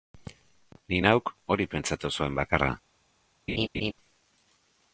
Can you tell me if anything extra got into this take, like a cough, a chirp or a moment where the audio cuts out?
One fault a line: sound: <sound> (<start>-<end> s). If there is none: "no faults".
sound: laugh (3.5-3.9 s)